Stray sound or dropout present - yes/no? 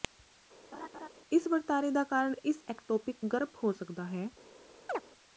yes